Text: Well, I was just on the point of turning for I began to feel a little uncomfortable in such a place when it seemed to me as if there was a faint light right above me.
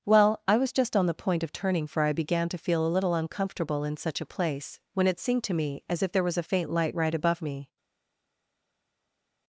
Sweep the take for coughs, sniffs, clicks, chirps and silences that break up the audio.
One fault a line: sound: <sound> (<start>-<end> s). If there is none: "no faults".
no faults